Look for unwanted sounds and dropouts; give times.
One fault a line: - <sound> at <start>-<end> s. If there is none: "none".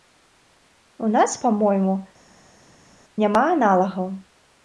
none